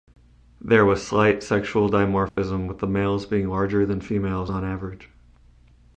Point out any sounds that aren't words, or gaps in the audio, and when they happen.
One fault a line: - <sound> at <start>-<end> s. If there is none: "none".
- dropout at 2.3-2.4 s